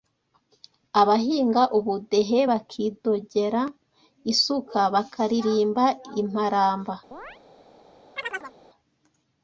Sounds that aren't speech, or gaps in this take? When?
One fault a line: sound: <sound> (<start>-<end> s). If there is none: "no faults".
sound: chirp (7.1-7.4 s)
sound: chirp (8.2-8.5 s)